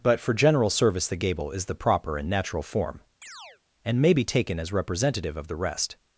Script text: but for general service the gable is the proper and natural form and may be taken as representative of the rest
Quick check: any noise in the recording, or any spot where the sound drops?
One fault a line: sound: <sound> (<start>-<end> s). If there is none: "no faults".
sound: chirp (3.2-3.6 s)